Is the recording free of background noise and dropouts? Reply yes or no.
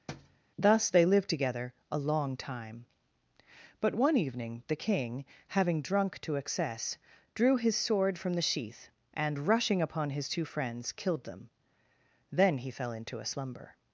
no